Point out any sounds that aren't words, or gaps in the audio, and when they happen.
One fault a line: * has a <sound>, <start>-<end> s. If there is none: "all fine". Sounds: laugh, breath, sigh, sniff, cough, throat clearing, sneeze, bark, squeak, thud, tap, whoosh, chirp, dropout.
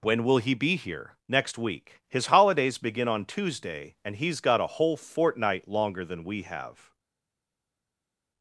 all fine